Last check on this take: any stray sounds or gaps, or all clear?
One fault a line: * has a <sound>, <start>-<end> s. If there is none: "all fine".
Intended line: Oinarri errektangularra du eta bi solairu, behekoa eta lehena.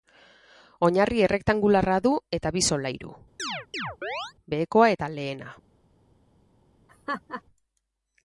* has a chirp, 3.4-4.3 s
* has a laugh, 6.9-7.4 s